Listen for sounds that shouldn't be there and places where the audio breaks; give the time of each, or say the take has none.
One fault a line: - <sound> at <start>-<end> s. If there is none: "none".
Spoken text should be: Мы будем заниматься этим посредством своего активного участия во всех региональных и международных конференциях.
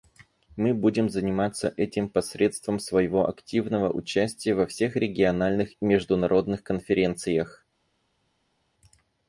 none